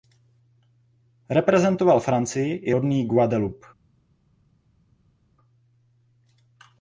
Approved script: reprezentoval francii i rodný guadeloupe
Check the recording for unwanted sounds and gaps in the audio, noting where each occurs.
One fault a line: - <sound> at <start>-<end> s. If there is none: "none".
none